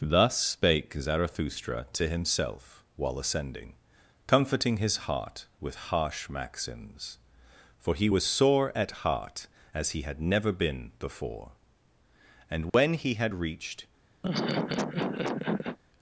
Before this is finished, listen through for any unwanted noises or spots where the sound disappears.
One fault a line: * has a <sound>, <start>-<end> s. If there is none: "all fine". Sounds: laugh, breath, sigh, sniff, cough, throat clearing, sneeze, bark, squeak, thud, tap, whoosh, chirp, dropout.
* has a dropout, 12.7-12.7 s
* has a laugh, 14.2-15.8 s